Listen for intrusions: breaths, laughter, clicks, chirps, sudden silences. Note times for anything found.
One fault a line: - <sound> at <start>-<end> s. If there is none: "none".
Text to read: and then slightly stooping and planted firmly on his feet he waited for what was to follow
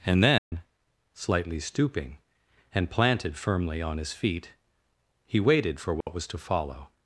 - dropout at 0.4-0.5 s
- dropout at 6.0-6.1 s